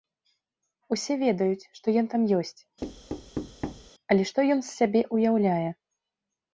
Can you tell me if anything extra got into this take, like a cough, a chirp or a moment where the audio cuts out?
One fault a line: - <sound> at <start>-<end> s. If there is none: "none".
- thud at 2.8-3.9 s